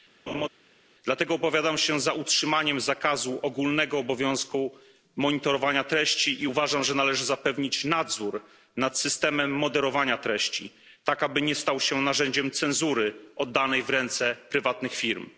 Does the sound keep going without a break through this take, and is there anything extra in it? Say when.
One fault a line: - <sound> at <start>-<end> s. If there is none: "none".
- laugh at 0.3-0.5 s